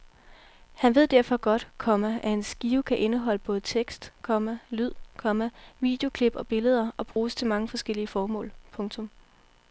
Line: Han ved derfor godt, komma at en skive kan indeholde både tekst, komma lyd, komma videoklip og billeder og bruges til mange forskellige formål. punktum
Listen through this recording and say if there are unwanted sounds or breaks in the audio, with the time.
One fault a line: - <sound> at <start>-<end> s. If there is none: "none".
- dropout at 7.1-7.2 s